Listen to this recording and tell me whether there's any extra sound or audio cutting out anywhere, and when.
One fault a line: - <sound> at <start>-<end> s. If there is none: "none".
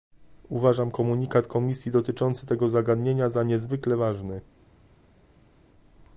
none